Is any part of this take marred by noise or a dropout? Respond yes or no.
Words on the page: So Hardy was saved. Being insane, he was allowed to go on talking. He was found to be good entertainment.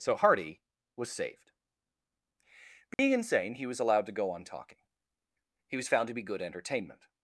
yes